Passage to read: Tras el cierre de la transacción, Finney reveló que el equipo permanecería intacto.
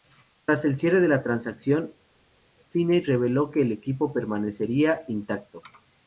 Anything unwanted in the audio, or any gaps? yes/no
no